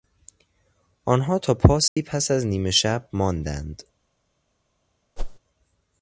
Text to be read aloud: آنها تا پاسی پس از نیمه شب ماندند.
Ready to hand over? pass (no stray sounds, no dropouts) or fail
fail